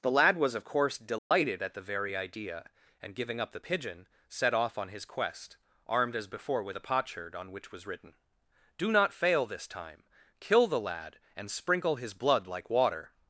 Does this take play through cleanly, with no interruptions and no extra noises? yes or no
no